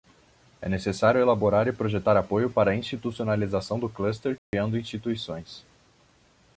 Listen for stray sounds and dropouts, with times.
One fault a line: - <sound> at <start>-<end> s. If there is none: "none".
- dropout at 4.4-4.5 s